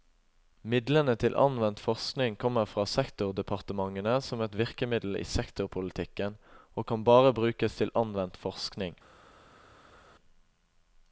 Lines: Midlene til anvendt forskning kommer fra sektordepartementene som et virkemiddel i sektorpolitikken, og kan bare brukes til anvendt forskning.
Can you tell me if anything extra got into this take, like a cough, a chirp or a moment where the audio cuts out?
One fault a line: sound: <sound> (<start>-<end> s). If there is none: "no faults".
no faults